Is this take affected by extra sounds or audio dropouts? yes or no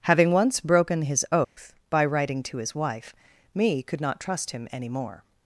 yes